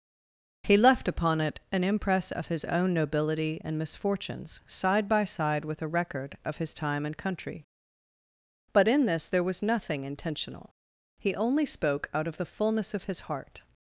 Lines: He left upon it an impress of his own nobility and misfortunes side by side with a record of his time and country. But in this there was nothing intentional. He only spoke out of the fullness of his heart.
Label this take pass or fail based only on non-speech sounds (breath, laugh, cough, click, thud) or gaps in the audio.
pass